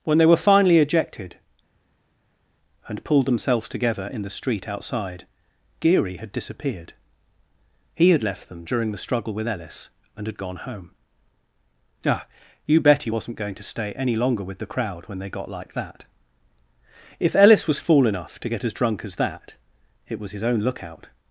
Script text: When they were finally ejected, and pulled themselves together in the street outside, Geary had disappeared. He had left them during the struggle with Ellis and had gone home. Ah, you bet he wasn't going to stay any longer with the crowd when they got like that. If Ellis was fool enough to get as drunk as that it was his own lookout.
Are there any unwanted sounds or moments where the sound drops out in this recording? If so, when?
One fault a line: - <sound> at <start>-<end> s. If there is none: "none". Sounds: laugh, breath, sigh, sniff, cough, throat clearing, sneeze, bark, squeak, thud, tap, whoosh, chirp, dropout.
none